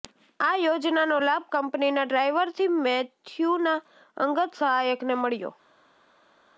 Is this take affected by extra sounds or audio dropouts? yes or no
no